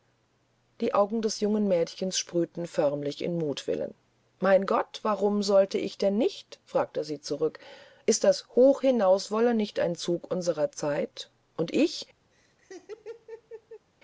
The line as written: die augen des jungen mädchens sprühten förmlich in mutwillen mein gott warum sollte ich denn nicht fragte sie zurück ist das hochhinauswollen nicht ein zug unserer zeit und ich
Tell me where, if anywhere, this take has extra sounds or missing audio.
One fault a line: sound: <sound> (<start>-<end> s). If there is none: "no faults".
sound: laugh (12.3-13.9 s)